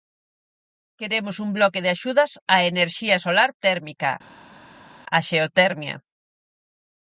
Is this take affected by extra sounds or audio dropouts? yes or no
no